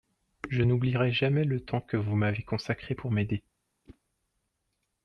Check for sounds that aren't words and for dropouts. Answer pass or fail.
fail